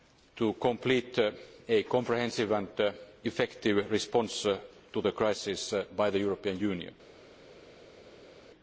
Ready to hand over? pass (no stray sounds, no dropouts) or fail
pass